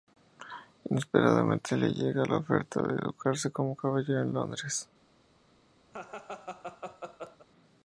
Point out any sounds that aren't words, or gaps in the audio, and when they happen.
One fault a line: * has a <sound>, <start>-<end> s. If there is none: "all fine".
* has a laugh, 5.9-7.5 s